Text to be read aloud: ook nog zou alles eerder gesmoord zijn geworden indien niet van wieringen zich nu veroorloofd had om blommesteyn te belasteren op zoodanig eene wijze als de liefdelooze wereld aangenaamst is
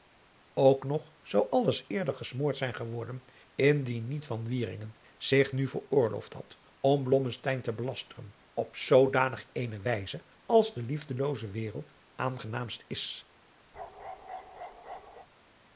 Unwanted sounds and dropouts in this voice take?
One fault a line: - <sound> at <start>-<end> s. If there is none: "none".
- bark at 13.7-15.3 s